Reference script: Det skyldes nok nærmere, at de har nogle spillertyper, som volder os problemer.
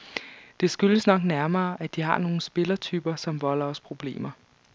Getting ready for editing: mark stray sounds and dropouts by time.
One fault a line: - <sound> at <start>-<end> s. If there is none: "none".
none